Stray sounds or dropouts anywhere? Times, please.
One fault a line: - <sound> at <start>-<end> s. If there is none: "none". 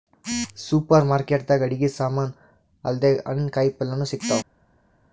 none